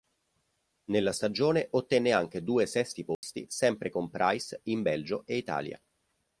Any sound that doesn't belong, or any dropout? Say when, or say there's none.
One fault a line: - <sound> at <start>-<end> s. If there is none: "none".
- dropout at 3.1-3.2 s